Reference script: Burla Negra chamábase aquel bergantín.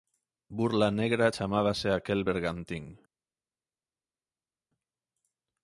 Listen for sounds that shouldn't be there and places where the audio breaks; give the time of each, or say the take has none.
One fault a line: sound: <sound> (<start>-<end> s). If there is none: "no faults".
no faults